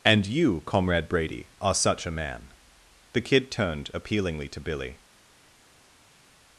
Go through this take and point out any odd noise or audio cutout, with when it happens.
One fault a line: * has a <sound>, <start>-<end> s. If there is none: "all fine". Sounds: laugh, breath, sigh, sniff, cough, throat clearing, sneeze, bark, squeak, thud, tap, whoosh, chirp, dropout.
all fine